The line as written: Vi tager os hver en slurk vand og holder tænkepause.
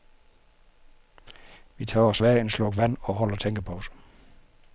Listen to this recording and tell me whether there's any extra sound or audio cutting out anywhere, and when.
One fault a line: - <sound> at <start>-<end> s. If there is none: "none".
none